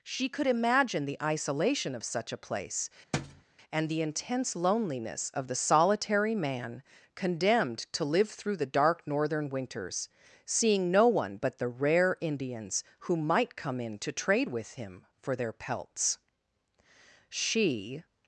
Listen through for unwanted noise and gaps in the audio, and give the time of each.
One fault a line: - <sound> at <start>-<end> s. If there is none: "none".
- thud at 3.1-3.4 s